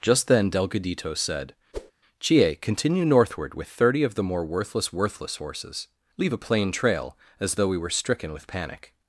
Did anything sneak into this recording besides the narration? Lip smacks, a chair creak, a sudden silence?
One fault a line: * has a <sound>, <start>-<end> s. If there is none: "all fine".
* has a whoosh, 1.7-1.9 s